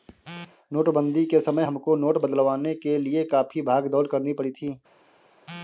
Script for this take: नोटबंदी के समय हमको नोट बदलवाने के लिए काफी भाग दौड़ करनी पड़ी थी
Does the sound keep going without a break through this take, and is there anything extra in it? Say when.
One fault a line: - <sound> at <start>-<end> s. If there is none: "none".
none